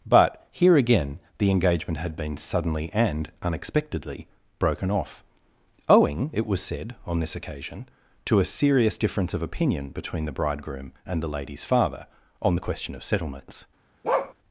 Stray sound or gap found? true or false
true